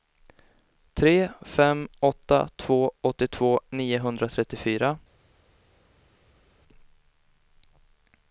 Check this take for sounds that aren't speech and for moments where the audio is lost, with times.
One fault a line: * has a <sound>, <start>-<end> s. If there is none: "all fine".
all fine